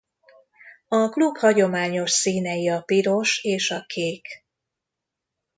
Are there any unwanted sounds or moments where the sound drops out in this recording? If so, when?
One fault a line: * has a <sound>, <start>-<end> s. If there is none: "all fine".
all fine